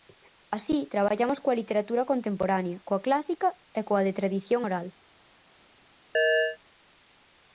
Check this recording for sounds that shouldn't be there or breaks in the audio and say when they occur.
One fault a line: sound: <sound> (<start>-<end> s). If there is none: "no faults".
sound: chirp (6.1-6.6 s)